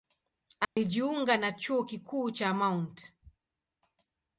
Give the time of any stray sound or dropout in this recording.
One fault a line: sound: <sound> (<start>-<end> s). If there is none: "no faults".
sound: dropout (0.6-0.8 s)